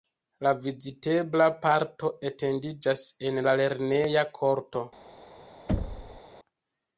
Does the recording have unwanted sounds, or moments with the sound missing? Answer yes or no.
yes